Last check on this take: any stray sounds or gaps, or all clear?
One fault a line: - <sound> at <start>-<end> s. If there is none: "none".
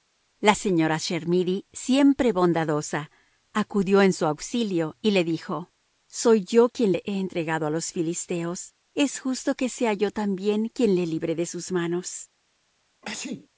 - sneeze at 13.0-13.5 s